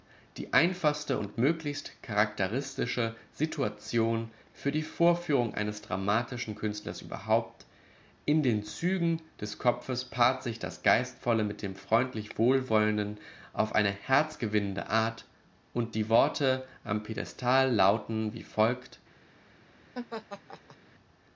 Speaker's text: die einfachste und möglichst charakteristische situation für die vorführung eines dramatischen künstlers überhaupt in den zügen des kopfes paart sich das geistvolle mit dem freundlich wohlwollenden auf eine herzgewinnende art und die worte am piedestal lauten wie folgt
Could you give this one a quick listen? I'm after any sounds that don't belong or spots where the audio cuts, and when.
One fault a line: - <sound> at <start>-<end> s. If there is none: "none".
- laugh at 19.9-20.8 s